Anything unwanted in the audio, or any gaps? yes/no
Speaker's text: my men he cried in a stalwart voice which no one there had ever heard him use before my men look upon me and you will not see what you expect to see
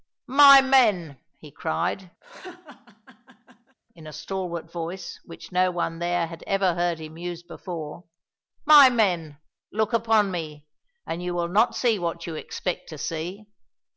yes